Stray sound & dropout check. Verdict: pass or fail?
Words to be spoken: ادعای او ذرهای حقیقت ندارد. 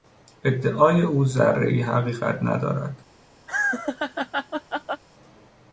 fail